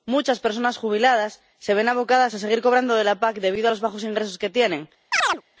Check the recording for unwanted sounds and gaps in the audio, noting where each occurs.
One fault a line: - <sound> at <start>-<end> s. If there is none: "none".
- chirp at 5.1-5.4 s